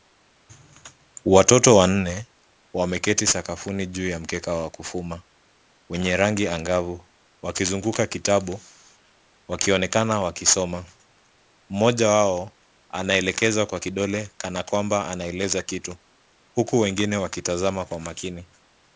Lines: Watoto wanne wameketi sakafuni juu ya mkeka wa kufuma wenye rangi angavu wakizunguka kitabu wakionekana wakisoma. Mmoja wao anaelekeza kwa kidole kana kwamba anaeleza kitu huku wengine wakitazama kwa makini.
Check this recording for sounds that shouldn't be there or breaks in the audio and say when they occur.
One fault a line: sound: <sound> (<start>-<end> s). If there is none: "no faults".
no faults